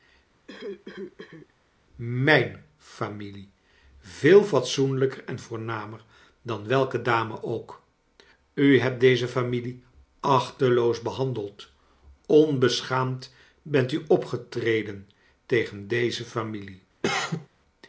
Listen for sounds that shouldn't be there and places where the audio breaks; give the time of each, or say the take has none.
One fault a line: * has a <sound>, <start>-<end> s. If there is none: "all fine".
* has a cough, 0.5-1.5 s
* has a cough, 17.0-17.5 s